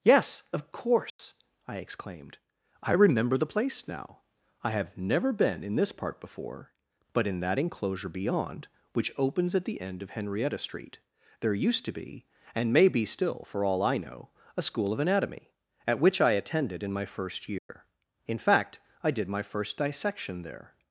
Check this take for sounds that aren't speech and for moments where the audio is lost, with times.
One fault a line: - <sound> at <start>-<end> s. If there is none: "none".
- dropout at 1.1-1.2 s
- dropout at 17.6-17.7 s